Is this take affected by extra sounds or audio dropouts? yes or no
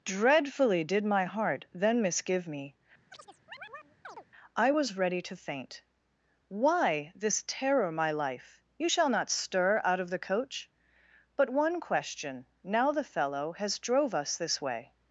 yes